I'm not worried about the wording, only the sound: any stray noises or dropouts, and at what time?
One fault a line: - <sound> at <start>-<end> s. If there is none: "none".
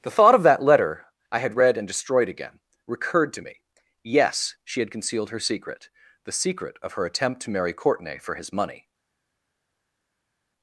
none